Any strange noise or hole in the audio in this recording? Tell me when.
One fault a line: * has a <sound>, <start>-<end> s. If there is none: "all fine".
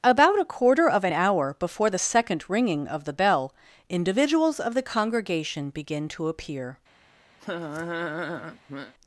* has a laugh, 7.4-8.9 s